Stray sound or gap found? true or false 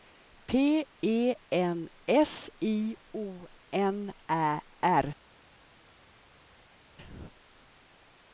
false